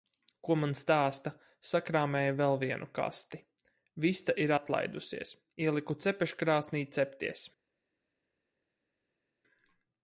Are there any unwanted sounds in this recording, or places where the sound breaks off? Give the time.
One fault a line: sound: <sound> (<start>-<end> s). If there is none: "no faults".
no faults